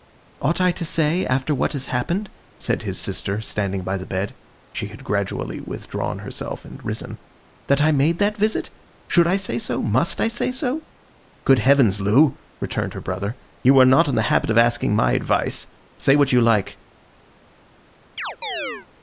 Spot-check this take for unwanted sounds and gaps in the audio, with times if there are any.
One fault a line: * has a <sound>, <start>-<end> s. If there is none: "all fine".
* has a chirp, 18.2-18.9 s